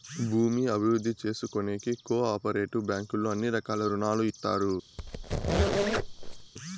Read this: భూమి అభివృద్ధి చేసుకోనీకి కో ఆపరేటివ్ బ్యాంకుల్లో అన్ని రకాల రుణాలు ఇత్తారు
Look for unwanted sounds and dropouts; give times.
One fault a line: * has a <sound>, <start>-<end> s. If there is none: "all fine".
* has a squeak, 5.0-6.5 s